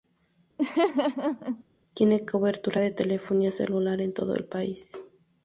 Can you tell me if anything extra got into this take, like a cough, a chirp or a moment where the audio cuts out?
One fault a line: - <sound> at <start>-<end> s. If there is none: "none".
- laugh at 0.6-1.6 s